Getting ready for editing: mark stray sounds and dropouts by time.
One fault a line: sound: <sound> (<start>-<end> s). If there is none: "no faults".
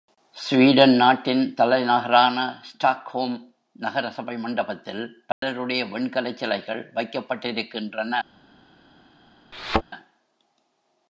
sound: dropout (5.3-5.4 s)
sound: thud (9.5-9.8 s)